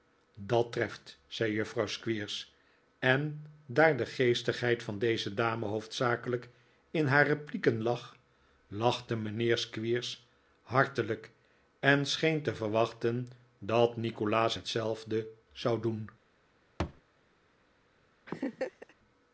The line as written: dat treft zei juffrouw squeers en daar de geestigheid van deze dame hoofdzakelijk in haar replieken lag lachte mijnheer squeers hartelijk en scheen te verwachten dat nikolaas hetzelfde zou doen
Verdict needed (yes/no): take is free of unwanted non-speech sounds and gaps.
no